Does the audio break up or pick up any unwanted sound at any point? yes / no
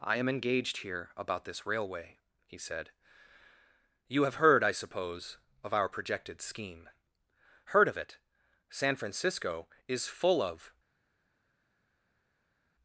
no